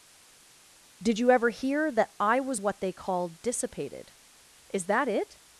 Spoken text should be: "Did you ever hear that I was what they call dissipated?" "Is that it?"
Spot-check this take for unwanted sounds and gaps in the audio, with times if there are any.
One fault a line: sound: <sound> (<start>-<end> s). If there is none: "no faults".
no faults